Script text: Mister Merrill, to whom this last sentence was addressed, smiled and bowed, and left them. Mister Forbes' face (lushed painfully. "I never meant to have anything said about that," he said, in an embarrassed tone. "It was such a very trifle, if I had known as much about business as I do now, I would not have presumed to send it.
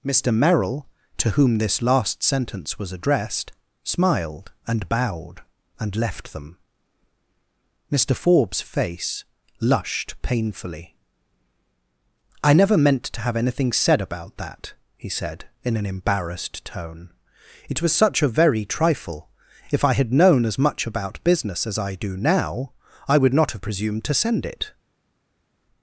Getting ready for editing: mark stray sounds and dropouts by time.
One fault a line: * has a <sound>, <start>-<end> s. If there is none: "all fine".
all fine